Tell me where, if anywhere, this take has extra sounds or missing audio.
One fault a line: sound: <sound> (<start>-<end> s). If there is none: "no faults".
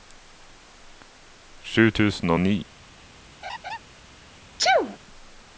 sound: laugh (3.4-3.8 s)
sound: sneeze (4.6-5.0 s)